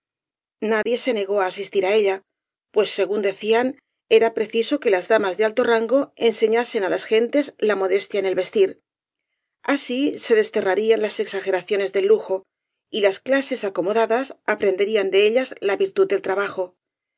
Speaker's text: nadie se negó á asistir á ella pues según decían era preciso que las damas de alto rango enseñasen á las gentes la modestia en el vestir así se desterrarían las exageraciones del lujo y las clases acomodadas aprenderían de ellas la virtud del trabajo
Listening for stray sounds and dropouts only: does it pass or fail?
fail